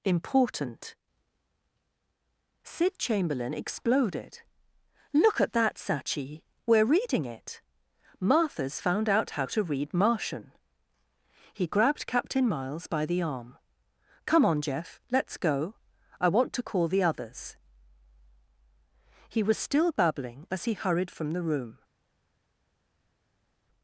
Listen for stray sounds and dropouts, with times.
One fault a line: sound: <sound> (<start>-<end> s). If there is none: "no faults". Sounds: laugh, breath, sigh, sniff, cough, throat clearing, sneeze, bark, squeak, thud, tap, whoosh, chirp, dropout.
no faults